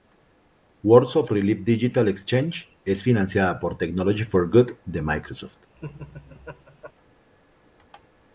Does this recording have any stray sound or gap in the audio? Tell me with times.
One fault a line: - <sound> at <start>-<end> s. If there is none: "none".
- laugh at 5.7-6.9 s